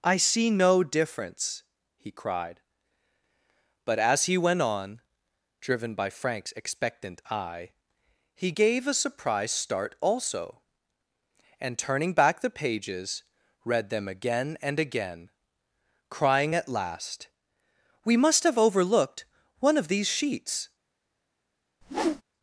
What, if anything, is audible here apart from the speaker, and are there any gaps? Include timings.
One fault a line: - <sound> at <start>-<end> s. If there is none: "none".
- whoosh at 21.8-22.2 s